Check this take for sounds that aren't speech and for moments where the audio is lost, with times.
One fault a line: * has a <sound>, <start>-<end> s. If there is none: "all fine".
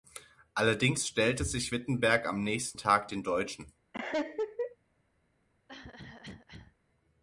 * has a laugh, 3.9-4.8 s
* has a cough, 5.7-6.8 s